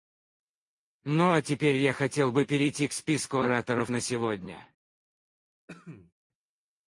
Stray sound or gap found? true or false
true